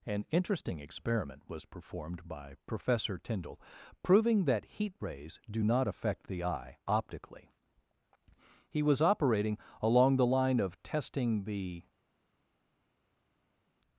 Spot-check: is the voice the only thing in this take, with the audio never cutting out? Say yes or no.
yes